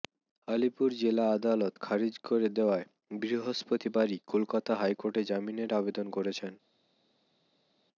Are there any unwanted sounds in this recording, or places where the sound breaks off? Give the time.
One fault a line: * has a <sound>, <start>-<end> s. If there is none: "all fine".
all fine